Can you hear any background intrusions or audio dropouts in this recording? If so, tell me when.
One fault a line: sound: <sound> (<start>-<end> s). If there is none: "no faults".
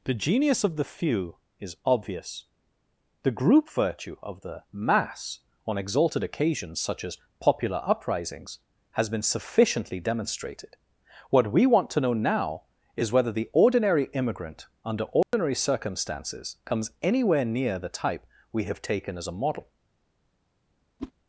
sound: dropout (15.2-15.3 s)
sound: whoosh (21.0-21.1 s)